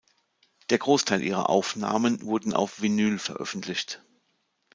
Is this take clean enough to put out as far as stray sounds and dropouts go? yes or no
yes